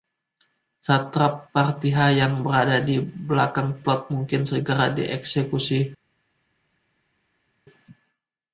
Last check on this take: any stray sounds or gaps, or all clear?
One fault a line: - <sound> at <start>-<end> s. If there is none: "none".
none